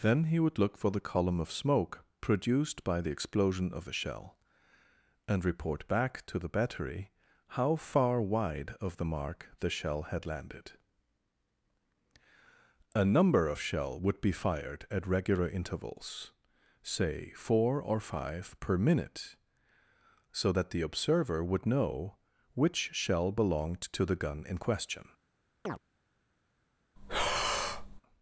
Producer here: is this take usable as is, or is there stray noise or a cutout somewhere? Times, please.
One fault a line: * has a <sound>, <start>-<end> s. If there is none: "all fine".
* has a chirp, 25.7-25.8 s
* has a breath, 27.0-28.0 s